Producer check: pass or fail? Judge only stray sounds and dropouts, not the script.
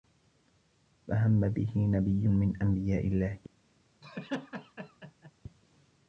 fail